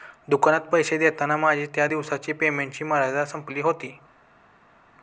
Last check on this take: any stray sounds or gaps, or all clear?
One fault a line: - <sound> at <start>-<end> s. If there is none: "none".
none